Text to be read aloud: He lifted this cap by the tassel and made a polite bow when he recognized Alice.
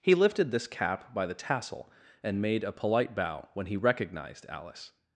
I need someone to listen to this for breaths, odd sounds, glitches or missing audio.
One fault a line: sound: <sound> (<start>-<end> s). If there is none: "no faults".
no faults